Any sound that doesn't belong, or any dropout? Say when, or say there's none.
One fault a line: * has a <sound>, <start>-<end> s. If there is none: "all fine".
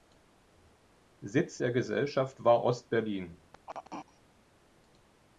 * has a throat clearing, 3.5-4.2 s